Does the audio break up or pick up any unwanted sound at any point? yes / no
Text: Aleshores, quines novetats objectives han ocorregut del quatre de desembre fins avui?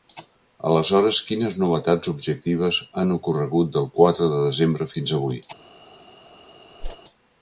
yes